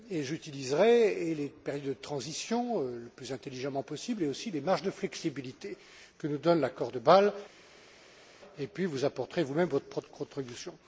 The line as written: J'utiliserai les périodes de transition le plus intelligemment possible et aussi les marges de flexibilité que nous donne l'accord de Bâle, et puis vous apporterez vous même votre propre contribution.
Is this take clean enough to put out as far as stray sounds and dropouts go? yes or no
yes